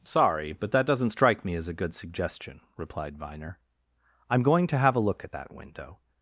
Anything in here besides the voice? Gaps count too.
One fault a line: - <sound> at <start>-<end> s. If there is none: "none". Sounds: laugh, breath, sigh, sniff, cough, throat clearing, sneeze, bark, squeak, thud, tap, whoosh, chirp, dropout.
none